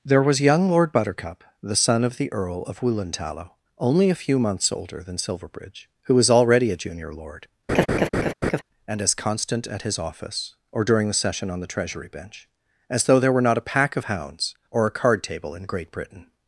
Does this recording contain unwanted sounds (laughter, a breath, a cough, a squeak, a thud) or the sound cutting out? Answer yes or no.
yes